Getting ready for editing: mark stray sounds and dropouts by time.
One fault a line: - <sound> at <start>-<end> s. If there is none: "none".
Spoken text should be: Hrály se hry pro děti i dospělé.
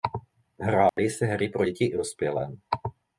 - dropout at 0.9-1.0 s